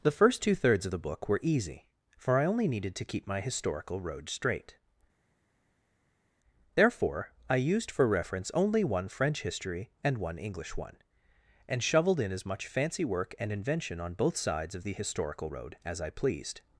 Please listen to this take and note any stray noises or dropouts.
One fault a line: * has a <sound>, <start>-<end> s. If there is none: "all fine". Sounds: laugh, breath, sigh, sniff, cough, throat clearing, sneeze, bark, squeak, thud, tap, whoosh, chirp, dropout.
all fine